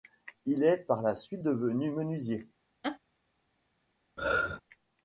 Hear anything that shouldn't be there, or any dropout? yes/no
yes